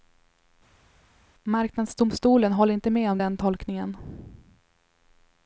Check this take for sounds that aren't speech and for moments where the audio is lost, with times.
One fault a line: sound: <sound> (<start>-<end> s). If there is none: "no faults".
no faults